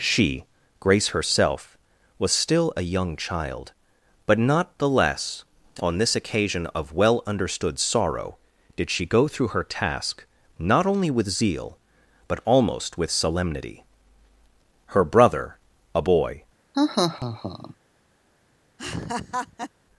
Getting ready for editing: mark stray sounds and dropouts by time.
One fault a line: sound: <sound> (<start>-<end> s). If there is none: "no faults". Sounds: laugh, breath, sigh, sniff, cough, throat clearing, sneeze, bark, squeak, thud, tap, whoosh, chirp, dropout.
sound: laugh (16.7-17.7 s)
sound: laugh (18.8-19.7 s)